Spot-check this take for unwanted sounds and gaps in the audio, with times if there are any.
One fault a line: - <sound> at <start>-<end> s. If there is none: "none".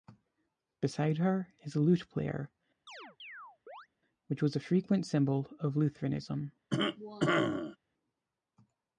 - chirp at 2.9-3.9 s
- cough at 6.7-7.8 s